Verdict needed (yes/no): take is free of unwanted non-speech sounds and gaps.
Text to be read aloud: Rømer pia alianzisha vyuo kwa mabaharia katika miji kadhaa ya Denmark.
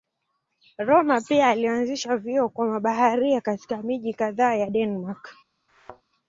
no